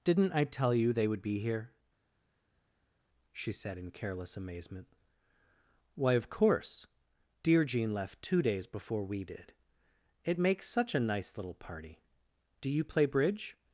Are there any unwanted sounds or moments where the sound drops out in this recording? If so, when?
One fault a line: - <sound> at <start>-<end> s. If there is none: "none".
none